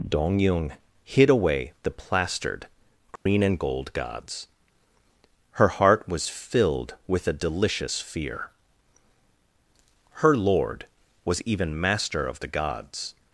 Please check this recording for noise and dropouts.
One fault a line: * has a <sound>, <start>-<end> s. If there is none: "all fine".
* has a dropout, 3.2-3.3 s